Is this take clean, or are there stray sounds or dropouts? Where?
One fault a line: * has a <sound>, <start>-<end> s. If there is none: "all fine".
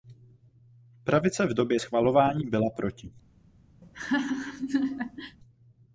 * has a laugh, 3.8-5.4 s